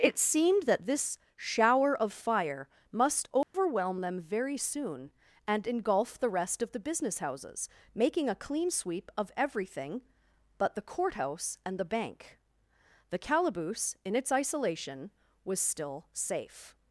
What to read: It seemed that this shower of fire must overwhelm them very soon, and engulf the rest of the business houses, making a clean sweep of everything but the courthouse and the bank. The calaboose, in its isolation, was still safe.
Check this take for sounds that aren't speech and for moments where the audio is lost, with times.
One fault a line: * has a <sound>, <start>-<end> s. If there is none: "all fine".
* has a dropout, 3.4-3.5 s